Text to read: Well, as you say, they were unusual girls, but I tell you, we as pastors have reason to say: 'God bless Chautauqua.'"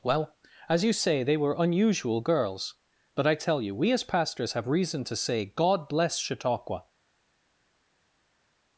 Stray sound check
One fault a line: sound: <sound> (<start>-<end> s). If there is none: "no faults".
no faults